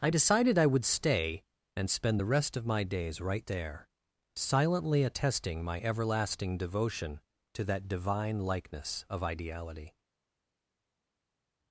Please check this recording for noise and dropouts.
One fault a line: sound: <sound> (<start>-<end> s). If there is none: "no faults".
no faults